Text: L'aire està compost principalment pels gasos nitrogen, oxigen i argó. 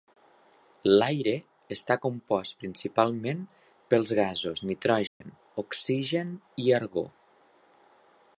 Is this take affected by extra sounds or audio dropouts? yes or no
yes